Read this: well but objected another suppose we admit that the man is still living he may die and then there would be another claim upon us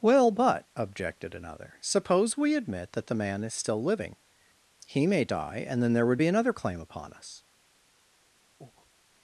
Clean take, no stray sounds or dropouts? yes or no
no